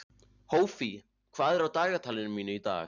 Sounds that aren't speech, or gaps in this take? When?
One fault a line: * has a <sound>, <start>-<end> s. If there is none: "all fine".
all fine